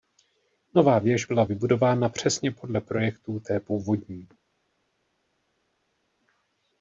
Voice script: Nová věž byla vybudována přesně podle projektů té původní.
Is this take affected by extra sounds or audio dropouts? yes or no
no